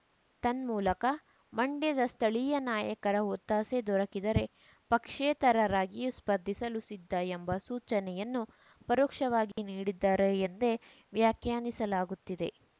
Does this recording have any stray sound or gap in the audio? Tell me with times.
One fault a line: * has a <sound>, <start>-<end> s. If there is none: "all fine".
* has a dropout, 9.5-9.6 s